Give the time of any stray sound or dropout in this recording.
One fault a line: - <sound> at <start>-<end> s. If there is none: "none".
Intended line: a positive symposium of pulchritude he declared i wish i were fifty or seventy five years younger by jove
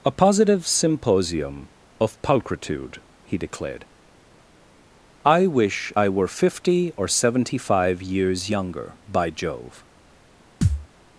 - thud at 10.6-10.9 s